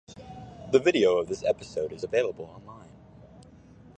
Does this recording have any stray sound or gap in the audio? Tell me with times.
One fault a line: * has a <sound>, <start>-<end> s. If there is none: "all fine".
all fine